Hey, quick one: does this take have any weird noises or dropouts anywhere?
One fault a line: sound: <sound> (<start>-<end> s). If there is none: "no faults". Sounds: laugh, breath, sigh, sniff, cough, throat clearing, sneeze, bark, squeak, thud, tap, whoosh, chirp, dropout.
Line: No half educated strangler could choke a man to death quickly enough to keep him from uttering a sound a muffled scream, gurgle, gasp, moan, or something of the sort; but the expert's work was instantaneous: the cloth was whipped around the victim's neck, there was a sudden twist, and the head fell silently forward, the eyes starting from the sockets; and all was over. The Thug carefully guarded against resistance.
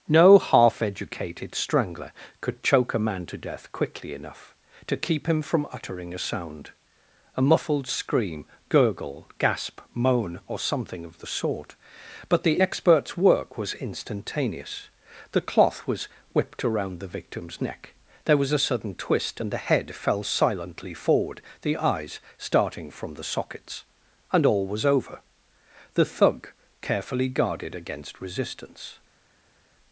no faults